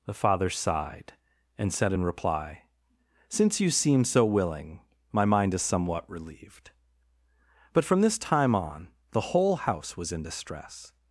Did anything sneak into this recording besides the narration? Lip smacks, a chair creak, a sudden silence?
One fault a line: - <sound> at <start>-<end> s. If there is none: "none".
none